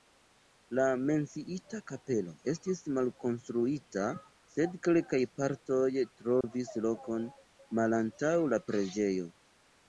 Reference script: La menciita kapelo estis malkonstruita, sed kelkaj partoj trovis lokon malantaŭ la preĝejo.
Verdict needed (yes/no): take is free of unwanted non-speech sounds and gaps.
no